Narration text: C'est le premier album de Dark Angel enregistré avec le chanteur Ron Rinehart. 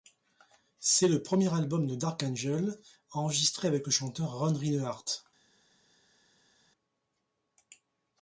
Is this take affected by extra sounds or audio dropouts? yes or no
no